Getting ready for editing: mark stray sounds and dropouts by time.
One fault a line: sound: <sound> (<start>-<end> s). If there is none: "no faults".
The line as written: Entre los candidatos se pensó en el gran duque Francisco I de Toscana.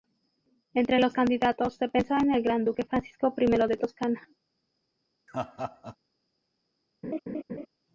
sound: laugh (5.3-6.0 s)
sound: laugh (7.0-7.7 s)